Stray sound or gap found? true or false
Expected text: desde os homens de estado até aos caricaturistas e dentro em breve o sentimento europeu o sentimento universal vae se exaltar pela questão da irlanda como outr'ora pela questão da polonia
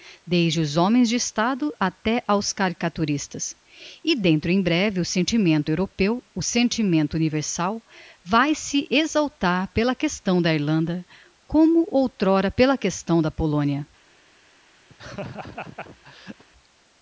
true